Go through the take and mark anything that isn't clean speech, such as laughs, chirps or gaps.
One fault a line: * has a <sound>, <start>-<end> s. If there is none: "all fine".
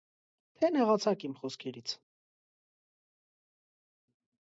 all fine